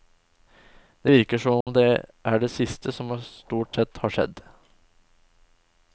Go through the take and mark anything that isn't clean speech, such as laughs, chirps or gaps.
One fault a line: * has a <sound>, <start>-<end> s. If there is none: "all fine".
* has a dropout, 1.6-1.7 s